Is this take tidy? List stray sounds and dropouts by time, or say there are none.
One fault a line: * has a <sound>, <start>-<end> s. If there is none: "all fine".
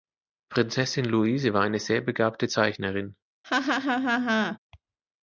* has a laugh, 3.4-4.6 s